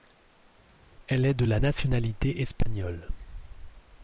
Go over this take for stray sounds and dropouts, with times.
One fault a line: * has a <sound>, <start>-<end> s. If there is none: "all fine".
all fine